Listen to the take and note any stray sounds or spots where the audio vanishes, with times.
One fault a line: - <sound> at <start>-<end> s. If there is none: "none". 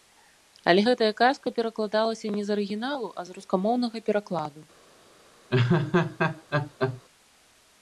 - laugh at 5.5-7.0 s